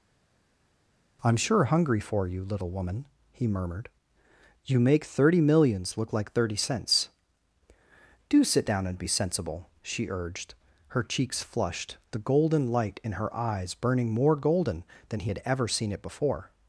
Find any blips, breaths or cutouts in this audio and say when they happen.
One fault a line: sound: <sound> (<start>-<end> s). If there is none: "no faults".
no faults